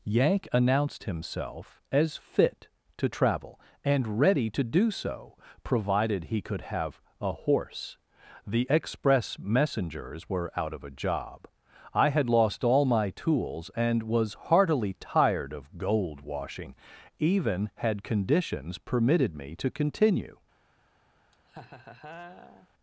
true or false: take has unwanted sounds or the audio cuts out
true